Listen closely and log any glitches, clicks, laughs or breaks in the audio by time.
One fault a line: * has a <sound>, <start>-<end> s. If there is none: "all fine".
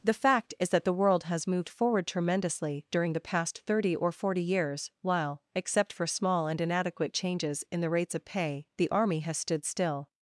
all fine